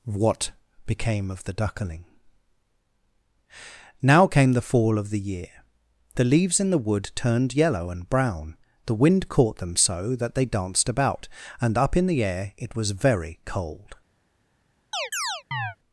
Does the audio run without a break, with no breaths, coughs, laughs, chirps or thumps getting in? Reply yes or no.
no